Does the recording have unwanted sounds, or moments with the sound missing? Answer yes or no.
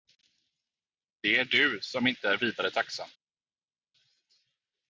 no